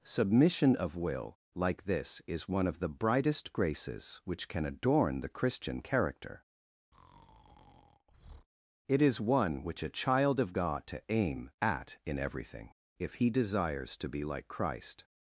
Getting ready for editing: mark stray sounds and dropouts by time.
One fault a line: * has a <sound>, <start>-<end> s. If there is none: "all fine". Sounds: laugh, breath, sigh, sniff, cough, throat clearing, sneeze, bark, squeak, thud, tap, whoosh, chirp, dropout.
* has a breath, 6.9-8.5 s